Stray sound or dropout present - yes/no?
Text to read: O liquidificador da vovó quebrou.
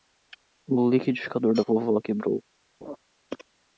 yes